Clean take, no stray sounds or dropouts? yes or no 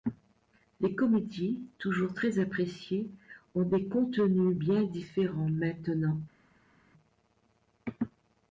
yes